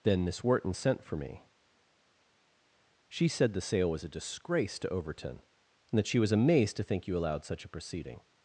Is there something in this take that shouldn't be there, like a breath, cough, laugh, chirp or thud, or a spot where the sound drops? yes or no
no